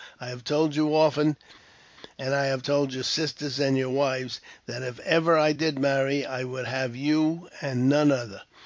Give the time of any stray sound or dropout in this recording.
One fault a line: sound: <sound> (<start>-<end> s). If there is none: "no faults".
no faults